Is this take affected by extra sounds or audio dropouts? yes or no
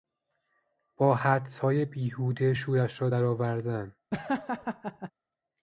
yes